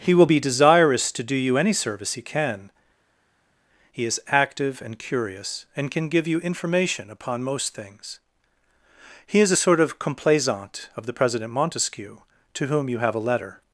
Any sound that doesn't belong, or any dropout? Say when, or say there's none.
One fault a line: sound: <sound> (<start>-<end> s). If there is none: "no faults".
no faults